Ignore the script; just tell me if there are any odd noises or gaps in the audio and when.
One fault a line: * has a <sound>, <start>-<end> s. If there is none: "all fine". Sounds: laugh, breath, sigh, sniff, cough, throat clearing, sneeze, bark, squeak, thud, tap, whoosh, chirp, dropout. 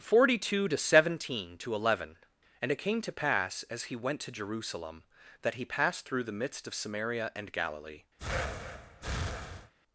* has a breath, 8.2-9.7 s